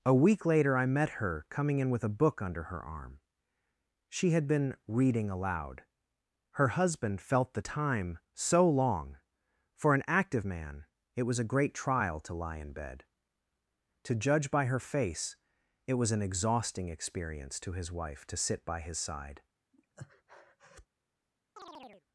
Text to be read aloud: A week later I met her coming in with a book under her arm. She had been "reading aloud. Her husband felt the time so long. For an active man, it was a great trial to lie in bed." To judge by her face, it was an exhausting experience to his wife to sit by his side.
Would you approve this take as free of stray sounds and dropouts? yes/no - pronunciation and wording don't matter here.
no